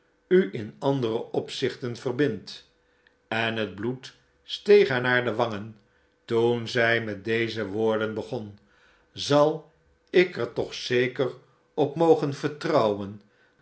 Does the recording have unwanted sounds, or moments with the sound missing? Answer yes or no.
no